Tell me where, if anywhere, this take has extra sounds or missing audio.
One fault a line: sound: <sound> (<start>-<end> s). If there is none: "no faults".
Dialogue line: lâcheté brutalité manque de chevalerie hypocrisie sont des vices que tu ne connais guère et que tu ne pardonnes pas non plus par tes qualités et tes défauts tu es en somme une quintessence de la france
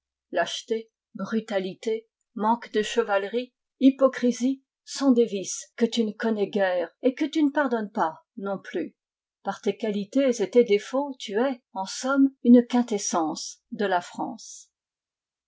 no faults